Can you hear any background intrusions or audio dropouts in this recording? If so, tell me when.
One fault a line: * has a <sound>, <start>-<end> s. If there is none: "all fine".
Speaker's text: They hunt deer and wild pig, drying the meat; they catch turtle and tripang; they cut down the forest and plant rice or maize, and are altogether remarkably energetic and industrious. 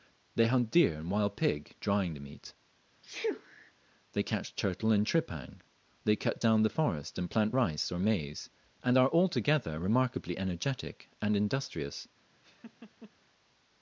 * has a sneeze, 3.0-3.7 s
* has a laugh, 12.4-13.1 s